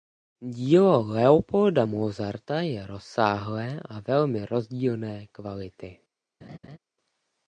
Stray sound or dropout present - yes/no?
yes